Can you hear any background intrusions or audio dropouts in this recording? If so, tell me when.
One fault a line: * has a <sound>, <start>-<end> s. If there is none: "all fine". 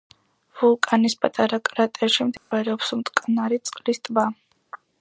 * has a dropout, 2.4-2.5 s